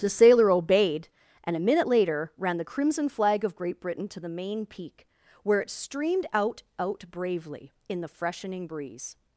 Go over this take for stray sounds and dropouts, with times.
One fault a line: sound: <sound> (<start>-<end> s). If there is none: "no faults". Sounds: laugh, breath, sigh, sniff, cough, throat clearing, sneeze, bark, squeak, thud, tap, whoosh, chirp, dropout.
no faults